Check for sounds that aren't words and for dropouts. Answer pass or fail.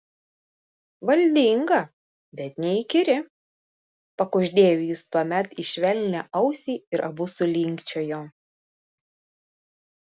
pass